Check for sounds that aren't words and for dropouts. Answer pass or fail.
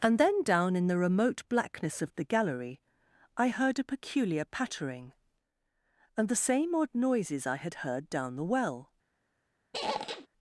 fail